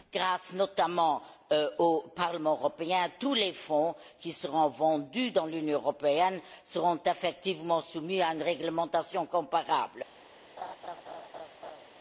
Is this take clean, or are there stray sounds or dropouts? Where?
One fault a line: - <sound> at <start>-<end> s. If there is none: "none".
- laugh at 10.6-11.9 s